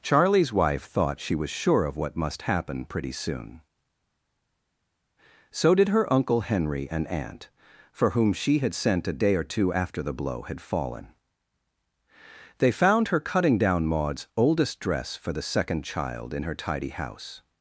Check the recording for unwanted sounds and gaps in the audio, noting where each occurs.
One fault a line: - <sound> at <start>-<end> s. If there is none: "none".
none